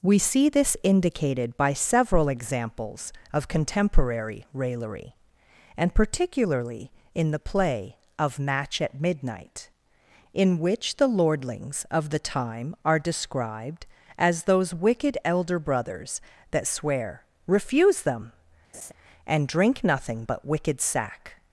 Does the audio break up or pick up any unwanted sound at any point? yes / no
yes